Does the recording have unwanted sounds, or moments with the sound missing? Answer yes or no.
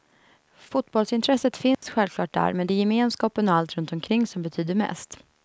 yes